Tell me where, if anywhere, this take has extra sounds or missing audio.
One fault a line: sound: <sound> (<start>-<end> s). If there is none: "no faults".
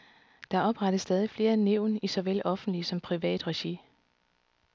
no faults